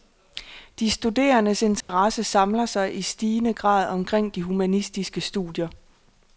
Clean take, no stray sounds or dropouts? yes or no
no